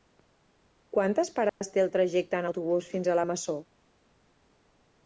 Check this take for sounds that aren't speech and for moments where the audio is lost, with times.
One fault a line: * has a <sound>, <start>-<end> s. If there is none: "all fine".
* has a dropout, 1.5-1.6 s